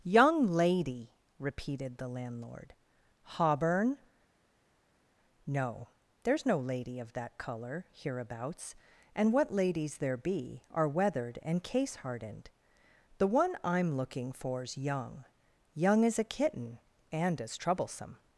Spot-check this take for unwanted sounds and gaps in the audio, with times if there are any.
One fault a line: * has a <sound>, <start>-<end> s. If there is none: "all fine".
all fine